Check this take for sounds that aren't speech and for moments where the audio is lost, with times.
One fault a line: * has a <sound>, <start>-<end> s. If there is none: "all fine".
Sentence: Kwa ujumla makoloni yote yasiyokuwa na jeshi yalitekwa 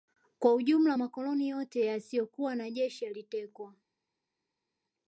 all fine